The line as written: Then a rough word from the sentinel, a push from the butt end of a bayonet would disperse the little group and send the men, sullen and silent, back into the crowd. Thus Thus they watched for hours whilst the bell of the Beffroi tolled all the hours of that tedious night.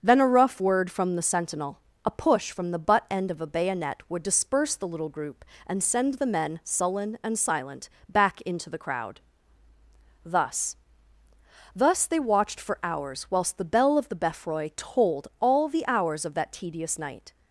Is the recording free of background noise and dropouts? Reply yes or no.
yes